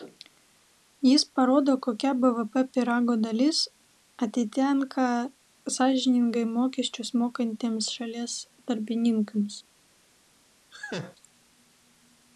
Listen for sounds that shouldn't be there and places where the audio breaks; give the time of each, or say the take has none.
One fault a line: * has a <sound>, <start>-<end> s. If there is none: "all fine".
* has a laugh, 10.7-11.2 s